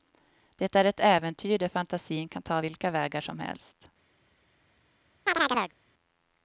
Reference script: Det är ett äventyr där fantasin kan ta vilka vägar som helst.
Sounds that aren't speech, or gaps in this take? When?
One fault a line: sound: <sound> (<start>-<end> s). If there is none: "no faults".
sound: chirp (5.3-5.7 s)